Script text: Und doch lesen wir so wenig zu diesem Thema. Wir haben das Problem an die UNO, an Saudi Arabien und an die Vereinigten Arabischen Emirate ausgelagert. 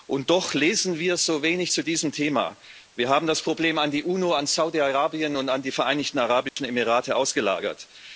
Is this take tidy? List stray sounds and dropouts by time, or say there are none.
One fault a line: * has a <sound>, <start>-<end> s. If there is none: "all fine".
* has a dropout, 6.5-6.6 s